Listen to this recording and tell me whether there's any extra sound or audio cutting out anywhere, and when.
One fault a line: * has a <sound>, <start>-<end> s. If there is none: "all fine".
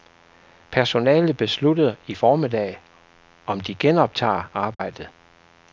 * has a dropout, 4.7-4.8 s